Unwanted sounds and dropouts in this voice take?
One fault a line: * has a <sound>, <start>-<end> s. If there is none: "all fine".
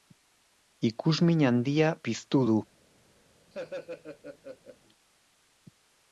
* has a laugh, 3.5-4.8 s